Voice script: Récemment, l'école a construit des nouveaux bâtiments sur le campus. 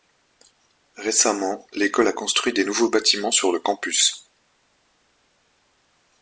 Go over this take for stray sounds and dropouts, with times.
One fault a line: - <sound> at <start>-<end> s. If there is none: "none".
none